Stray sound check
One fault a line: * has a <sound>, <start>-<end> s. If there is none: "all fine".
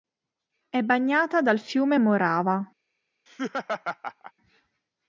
* has a laugh, 3.3-4.3 s